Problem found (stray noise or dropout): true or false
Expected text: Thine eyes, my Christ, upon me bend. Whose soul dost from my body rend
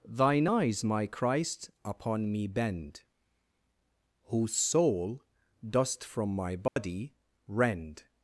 true